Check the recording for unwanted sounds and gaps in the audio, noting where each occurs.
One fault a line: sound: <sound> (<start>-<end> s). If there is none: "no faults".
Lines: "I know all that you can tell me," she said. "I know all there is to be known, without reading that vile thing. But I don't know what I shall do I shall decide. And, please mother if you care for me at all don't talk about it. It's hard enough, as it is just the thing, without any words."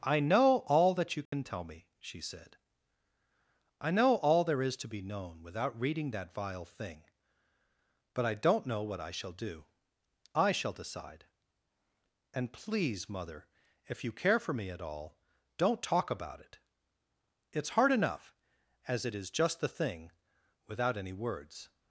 sound: dropout (1.3-1.3 s)